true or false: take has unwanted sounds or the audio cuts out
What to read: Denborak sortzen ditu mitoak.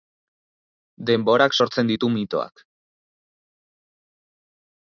false